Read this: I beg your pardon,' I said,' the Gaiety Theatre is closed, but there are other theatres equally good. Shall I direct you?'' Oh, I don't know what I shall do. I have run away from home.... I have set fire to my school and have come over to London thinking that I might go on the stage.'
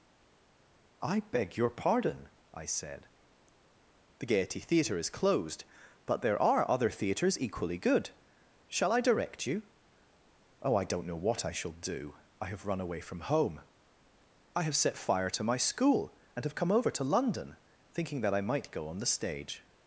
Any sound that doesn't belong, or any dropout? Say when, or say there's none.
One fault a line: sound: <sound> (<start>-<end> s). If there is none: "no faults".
no faults